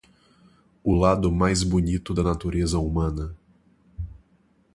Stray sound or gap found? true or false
false